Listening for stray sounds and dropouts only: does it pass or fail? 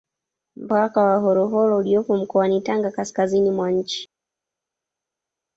pass